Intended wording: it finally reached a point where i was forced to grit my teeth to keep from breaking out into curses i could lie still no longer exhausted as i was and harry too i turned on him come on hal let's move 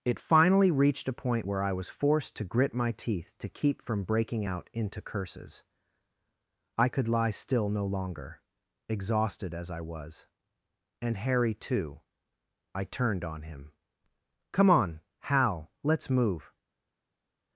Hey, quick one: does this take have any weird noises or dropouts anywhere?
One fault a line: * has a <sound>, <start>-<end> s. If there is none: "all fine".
all fine